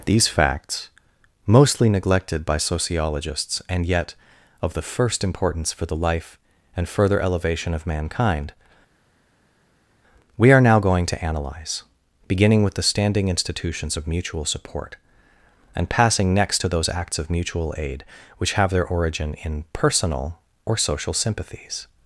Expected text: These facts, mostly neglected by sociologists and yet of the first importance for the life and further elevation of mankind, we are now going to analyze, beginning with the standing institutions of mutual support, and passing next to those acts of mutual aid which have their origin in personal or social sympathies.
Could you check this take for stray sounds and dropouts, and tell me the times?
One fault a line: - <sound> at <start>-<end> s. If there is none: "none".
none